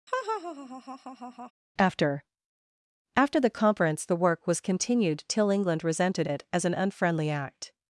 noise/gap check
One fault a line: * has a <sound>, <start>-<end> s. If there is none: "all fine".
* has a laugh, 0.1-1.5 s